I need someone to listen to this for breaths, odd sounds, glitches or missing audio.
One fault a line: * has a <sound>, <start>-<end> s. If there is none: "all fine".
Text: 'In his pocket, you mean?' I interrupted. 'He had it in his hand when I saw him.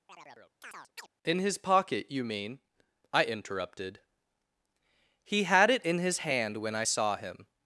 * has a chirp, 0.1-1.1 s